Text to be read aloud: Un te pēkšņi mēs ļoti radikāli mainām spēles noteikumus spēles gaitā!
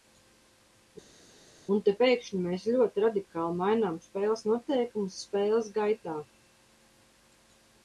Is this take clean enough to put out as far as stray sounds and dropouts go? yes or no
yes